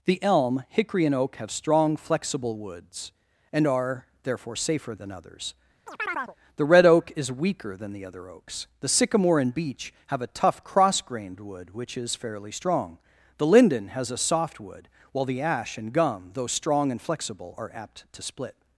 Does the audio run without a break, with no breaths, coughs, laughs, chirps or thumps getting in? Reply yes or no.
no